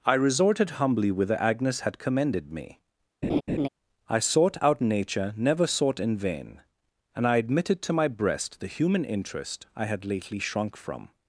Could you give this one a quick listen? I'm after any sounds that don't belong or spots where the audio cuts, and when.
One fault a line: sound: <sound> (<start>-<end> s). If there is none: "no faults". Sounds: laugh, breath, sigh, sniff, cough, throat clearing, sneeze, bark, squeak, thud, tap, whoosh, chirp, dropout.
sound: laugh (3.2-3.7 s)